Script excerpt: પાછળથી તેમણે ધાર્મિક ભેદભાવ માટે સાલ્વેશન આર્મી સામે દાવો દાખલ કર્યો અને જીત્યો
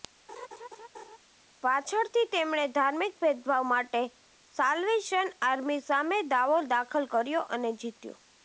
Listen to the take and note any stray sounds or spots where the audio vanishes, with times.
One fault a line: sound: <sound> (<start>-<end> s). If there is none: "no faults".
sound: laugh (0.3-1.2 s)